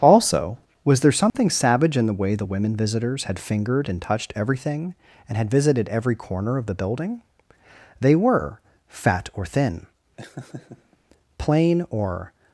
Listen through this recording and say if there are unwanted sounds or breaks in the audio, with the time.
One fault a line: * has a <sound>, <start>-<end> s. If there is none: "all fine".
* has a dropout, 1.3-1.3 s
* has a laugh, 10.2-11.0 s